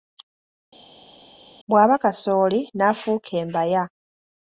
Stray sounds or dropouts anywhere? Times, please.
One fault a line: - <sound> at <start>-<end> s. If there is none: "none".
none